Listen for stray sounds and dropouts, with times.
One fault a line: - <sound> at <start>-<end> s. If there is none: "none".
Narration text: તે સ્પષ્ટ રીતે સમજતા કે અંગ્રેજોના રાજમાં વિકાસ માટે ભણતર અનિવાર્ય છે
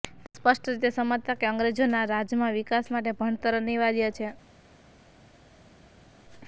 none